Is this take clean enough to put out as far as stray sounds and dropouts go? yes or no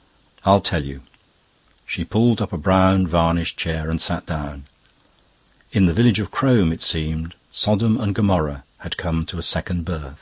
yes